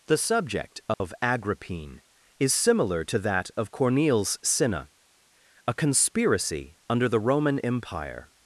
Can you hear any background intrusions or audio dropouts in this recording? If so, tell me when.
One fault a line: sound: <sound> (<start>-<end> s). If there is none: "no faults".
sound: dropout (0.9-1.0 s)